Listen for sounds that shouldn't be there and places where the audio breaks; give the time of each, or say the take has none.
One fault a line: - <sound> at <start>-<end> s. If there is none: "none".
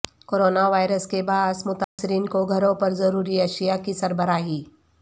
- dropout at 1.8-2.0 s